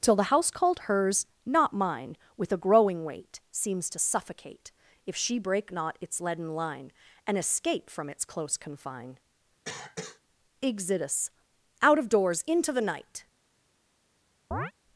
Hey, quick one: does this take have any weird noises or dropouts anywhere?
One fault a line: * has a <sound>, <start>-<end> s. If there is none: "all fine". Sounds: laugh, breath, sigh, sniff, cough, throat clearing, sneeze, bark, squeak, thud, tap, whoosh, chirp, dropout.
* has a cough, 9.6-10.2 s
* has a chirp, 14.5-14.7 s